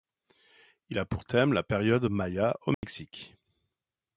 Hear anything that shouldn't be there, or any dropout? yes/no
yes